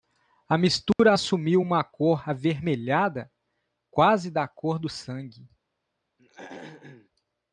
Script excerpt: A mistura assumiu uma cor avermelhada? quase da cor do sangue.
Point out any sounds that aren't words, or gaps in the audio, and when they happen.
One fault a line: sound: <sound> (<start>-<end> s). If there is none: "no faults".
sound: dropout (0.9-1.0 s)
sound: throat clearing (6.2-7.1 s)